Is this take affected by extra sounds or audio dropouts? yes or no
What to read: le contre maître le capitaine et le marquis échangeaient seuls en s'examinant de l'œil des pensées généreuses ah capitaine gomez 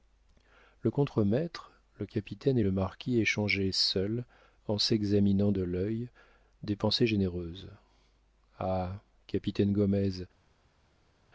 no